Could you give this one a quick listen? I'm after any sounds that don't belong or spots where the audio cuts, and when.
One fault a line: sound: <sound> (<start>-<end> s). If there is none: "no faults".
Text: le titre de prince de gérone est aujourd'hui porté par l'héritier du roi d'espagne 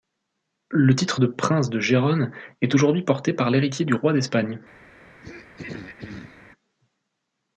sound: throat clearing (5.2-6.5 s)